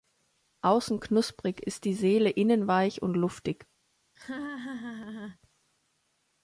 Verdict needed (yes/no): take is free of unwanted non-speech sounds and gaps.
no